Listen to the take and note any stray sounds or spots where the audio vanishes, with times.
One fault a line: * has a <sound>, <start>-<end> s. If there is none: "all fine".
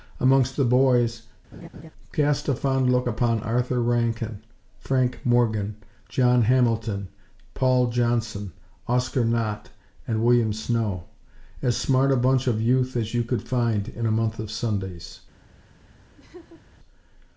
* has a laugh, 1.5-1.9 s
* has a laugh, 16.2-16.6 s